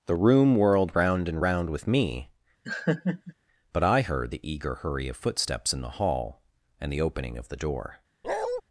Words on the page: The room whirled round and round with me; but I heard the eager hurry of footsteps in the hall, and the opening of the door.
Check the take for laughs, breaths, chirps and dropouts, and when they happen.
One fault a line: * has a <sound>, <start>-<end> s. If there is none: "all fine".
* has a laugh, 2.6-3.3 s
* has a bark, 8.2-8.6 s